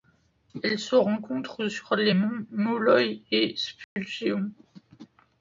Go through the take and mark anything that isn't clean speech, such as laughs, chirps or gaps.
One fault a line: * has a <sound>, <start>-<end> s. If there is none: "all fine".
* has a dropout, 3.8-4.0 s